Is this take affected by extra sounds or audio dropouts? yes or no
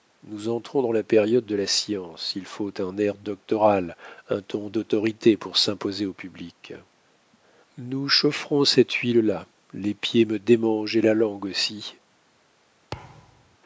yes